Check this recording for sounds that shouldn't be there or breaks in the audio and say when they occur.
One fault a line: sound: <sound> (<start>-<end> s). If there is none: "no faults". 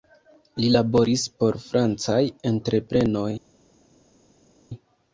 no faults